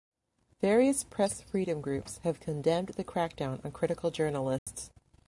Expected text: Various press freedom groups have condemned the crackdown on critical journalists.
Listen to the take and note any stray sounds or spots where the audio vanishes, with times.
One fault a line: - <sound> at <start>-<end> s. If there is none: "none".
- dropout at 4.6-4.7 s